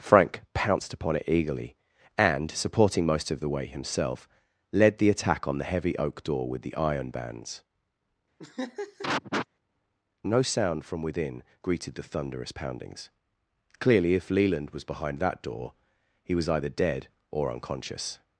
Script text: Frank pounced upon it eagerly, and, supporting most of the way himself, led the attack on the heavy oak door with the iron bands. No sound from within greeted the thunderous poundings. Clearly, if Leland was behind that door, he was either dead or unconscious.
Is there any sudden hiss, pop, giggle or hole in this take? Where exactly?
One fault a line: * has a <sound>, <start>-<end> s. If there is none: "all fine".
* has a laugh, 8.4-9.5 s